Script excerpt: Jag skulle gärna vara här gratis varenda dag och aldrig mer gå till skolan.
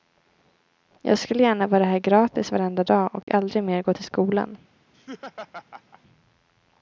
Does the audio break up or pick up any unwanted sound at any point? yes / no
yes